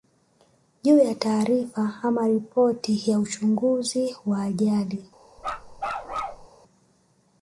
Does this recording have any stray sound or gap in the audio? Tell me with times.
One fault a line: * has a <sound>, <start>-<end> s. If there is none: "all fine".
* has a bark, 5.4-6.5 s